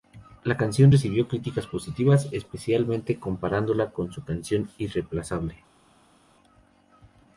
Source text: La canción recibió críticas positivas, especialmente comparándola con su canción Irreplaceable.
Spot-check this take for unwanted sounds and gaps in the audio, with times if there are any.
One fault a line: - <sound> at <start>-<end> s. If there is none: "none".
none